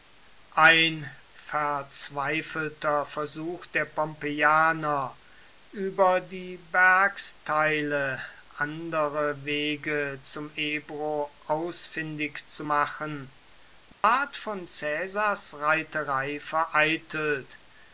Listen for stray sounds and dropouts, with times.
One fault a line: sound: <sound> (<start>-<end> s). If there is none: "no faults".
sound: dropout (13.9-14.0 s)